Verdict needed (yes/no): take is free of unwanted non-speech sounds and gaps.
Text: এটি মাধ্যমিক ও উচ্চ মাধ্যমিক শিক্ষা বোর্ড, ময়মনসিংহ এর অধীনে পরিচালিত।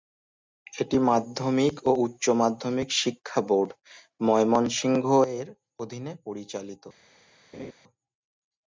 no